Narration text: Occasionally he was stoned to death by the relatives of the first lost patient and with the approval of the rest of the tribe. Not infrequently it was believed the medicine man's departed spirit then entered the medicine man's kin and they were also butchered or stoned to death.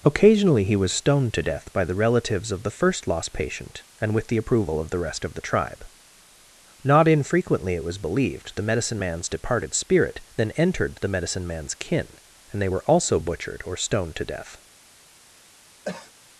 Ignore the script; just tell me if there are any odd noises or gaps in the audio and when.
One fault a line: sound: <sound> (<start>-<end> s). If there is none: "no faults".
sound: cough (15.8-16.1 s)